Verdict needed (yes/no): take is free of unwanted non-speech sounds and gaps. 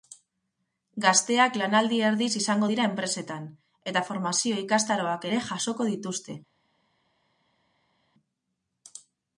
yes